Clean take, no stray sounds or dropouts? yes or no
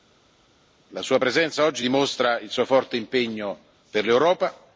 yes